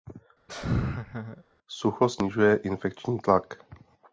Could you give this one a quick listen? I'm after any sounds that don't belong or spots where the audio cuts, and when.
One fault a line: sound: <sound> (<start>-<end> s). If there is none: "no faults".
sound: laugh (0.5-1.4 s)